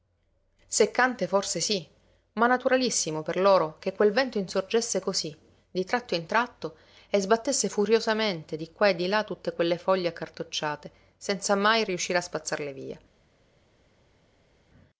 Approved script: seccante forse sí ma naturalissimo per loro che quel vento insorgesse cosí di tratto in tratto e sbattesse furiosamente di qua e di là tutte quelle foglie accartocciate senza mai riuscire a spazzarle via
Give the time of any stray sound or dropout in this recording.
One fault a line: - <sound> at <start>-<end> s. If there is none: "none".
none